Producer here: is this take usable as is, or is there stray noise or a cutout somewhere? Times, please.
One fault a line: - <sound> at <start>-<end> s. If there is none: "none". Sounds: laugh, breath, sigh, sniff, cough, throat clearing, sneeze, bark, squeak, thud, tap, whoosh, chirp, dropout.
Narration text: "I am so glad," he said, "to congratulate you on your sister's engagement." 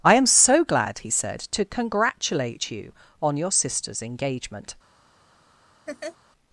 - laugh at 5.9-6.2 s